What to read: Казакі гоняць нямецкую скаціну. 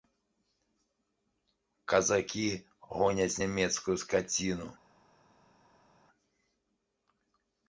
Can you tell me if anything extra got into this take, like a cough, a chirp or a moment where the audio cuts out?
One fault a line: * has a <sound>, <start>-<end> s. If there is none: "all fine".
all fine